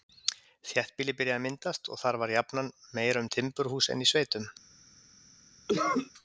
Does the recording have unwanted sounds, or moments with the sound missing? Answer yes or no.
yes